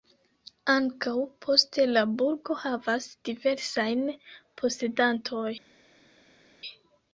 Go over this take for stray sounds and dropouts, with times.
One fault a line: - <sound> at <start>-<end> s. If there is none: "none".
none